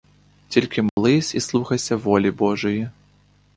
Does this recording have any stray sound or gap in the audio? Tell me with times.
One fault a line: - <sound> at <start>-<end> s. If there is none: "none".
- dropout at 0.9-1.0 s